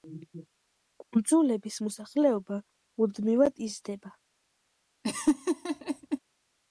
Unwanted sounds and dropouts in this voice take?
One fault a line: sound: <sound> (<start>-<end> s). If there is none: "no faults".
sound: laugh (5.0-6.2 s)